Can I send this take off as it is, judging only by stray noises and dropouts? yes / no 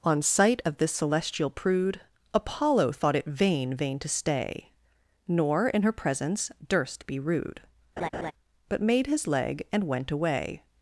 no